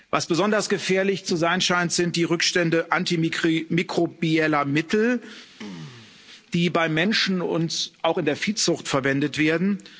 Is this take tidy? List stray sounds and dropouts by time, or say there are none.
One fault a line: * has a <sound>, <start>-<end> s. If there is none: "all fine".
* has a throat clearing, 5.6-6.2 s